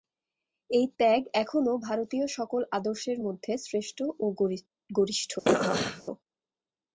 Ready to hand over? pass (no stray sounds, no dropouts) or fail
fail